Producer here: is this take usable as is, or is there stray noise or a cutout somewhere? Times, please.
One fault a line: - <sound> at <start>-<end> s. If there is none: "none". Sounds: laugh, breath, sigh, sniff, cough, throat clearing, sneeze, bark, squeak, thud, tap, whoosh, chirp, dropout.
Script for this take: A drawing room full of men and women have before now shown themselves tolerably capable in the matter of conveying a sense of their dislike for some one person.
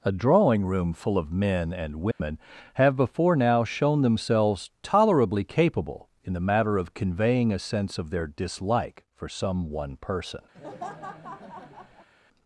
- dropout at 2.1-2.2 s
- laugh at 10.5-12.1 s